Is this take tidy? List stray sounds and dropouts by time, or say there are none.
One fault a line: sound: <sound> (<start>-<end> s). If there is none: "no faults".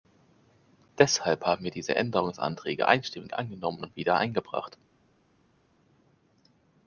no faults